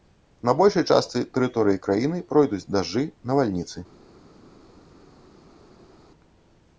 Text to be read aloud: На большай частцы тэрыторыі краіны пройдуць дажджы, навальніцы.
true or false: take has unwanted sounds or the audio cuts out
false